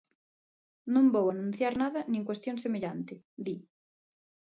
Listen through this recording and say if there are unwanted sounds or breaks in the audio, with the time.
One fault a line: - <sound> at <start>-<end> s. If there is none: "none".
none